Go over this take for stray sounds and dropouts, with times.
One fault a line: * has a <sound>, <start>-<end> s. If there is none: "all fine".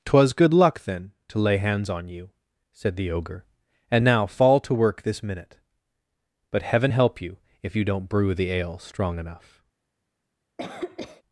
* has a cough, 10.6-11.2 s